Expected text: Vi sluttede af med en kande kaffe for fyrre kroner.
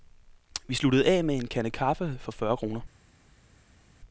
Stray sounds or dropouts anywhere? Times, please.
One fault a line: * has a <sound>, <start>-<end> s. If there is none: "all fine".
all fine